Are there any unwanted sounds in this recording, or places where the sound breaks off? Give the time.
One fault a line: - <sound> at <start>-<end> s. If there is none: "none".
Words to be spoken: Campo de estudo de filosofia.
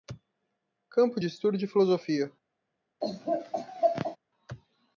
- laugh at 3.0-4.2 s